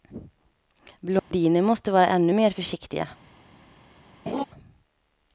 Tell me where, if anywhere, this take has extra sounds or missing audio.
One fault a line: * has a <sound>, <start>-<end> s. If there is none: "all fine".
* has a dropout, 1.2-1.3 s
* has a laugh, 4.3-4.4 s